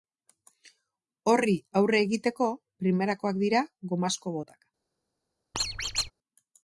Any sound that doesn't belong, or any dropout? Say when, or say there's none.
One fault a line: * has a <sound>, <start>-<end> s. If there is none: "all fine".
* has a squeak, 5.5-6.1 s